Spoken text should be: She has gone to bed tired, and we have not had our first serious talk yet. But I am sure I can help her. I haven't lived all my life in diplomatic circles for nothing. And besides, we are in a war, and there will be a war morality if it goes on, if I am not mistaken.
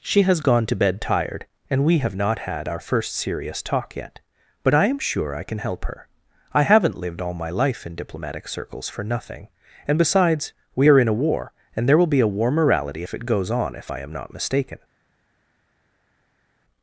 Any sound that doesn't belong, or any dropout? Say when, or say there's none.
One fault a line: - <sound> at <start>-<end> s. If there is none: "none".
none